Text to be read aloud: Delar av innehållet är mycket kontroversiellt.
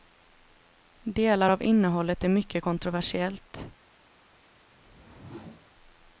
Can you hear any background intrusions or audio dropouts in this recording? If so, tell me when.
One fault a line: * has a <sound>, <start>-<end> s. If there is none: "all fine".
* has a whoosh, 4.7-5.7 s